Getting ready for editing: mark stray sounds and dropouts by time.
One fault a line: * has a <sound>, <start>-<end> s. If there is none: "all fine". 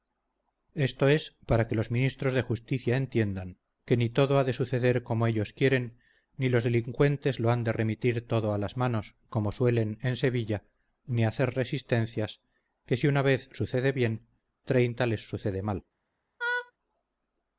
* has a laugh, 16.4-16.7 s